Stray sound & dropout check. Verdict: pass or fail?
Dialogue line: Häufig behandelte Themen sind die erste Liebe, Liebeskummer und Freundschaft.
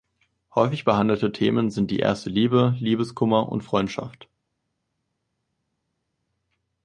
pass